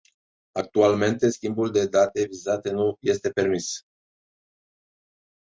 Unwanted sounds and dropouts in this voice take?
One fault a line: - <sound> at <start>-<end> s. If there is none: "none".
none